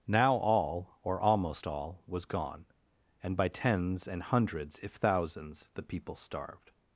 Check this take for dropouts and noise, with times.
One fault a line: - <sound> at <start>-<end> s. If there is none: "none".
none